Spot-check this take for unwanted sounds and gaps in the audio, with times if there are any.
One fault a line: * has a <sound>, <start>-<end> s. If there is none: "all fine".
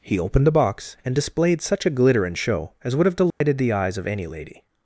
* has a dropout, 3.3-3.4 s